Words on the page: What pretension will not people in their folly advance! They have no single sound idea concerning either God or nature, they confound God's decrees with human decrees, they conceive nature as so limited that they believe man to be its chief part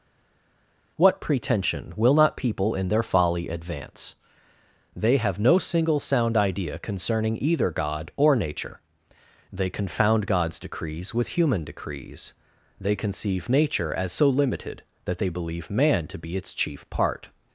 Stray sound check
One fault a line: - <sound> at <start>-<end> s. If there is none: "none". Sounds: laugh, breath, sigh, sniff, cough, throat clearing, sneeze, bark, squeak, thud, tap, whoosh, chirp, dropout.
none